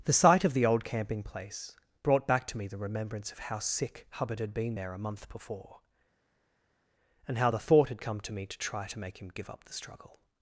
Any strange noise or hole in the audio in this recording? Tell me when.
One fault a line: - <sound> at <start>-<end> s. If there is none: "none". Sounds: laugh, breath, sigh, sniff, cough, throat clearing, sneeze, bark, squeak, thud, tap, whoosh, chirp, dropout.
none